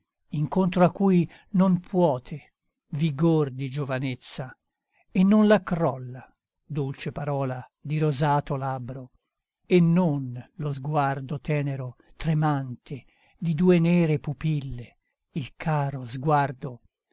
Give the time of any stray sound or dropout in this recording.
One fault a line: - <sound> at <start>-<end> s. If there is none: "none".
none